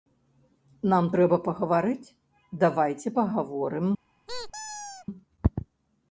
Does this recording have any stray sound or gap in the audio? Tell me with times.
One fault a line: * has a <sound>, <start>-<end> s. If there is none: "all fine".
* has a squeak, 4.3-5.1 s